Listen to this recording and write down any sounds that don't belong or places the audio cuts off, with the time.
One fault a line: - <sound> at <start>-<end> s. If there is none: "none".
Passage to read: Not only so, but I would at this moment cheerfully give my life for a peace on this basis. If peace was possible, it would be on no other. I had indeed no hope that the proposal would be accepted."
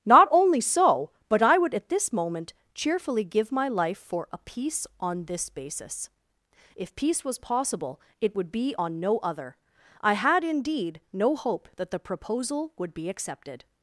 none